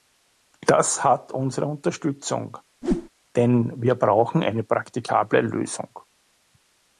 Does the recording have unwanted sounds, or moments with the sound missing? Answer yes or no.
yes